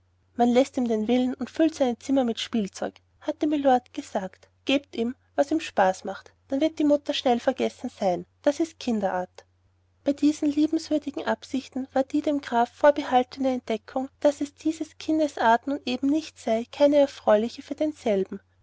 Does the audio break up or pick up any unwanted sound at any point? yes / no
no